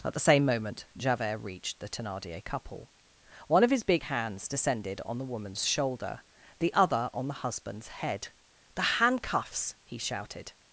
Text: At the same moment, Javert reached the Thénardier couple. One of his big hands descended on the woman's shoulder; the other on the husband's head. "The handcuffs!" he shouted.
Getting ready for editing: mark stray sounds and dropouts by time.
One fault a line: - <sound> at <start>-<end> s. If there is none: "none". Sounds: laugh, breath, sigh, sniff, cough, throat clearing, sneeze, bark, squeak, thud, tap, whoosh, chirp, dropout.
none